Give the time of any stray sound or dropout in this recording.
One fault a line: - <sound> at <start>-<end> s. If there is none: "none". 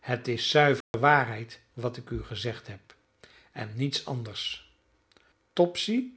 - dropout at 0.8-0.9 s